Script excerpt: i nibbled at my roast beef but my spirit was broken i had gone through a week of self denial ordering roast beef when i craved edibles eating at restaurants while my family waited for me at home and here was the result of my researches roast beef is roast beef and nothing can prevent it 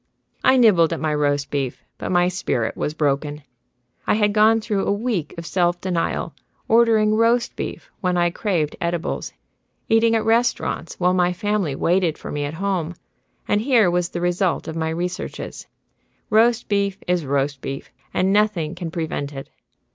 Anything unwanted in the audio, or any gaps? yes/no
no